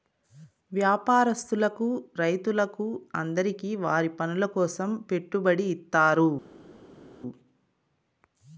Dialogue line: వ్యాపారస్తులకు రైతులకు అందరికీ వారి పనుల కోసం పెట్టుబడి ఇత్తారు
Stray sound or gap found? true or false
false